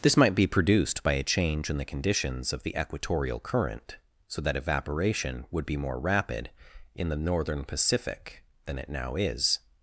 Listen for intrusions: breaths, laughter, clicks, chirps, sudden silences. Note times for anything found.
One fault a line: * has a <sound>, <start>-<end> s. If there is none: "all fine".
all fine